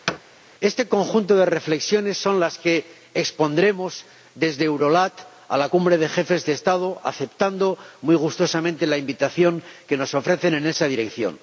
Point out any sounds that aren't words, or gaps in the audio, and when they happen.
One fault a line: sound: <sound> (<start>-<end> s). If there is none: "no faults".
sound: thud (0.1-0.2 s)